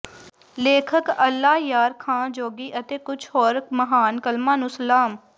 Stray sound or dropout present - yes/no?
no